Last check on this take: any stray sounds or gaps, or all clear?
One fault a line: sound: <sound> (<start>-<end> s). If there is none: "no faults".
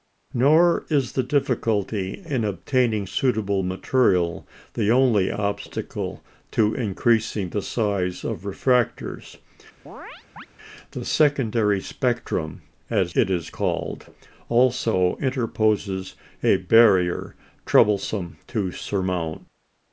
sound: chirp (9.9-10.5 s)